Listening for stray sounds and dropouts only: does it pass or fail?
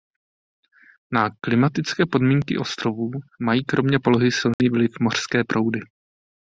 fail